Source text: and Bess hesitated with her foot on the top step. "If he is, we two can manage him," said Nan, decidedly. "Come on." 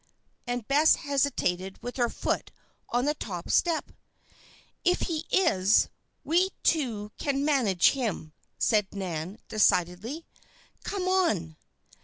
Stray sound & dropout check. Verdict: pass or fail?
pass